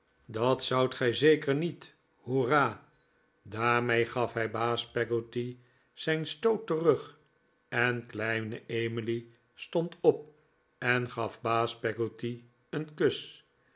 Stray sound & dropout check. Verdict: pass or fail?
pass